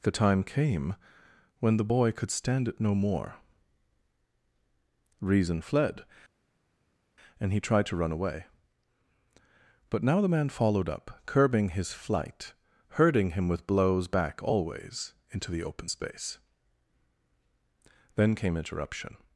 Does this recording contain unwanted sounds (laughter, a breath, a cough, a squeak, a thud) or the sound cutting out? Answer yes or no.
no